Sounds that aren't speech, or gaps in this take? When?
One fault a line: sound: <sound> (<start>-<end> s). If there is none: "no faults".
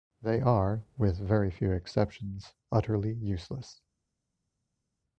no faults